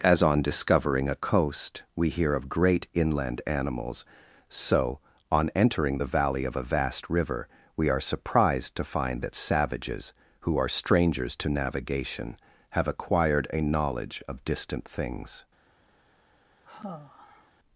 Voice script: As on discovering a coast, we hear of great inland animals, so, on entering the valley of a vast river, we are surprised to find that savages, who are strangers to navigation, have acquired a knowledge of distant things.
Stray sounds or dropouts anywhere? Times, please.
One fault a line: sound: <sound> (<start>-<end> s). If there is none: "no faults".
sound: sigh (16.6-17.5 s)